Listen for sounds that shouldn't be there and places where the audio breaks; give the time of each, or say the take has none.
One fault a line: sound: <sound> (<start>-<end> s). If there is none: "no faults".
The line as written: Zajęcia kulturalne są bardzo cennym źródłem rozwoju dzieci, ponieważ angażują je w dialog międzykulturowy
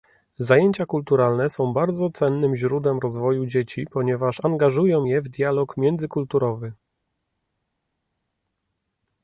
no faults